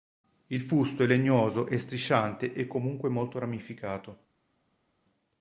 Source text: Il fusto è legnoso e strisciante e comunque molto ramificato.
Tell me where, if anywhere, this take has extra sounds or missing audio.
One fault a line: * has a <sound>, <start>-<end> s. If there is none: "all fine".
all fine